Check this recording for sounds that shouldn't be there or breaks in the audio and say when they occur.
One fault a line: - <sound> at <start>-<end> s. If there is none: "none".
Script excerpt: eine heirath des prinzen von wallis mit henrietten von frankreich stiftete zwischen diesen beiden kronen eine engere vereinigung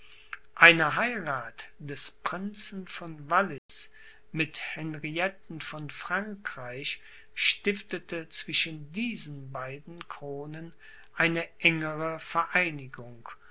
- dropout at 3.6-3.7 s